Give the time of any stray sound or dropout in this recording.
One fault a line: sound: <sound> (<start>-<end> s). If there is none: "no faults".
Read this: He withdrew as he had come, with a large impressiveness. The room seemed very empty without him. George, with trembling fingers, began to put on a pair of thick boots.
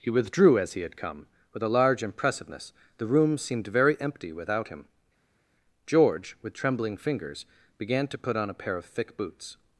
no faults